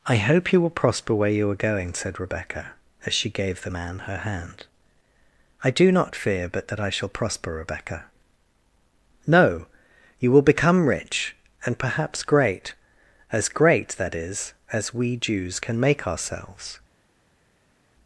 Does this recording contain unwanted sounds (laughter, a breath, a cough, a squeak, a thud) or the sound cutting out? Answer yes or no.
no